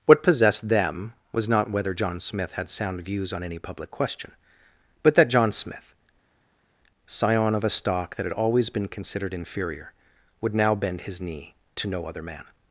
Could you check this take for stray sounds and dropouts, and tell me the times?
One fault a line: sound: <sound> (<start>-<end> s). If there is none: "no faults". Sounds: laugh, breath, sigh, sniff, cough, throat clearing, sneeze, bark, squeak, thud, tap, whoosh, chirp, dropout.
no faults